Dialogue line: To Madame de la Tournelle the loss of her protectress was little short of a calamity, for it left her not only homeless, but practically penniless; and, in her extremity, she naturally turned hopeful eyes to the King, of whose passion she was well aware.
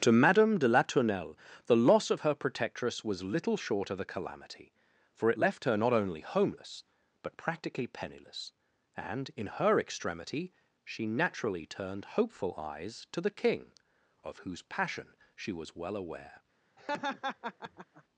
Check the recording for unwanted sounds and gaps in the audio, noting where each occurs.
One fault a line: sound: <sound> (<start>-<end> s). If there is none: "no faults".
sound: laugh (16.8-18.0 s)